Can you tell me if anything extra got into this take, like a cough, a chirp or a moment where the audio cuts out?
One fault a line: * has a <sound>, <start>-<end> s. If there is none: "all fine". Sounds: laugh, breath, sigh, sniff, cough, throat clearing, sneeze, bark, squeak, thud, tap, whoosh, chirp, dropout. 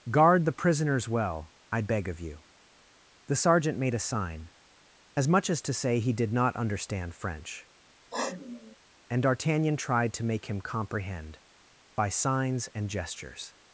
* has a sniff, 8.1-8.8 s